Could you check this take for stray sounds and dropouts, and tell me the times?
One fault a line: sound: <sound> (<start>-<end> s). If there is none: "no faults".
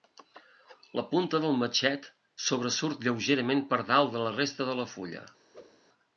sound: whoosh (5.5-5.8 s)